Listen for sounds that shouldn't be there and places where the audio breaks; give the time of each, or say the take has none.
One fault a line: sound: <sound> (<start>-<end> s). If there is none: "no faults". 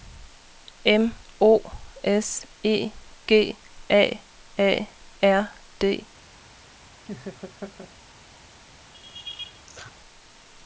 sound: laugh (7.0-7.9 s)
sound: laugh (8.9-9.9 s)